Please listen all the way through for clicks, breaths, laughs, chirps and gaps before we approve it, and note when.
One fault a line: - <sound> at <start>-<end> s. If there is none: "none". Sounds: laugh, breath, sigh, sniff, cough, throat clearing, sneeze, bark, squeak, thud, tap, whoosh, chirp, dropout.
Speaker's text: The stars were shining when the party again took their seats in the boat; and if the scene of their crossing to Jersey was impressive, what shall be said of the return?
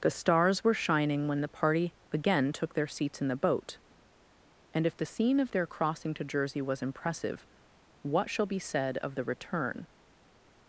none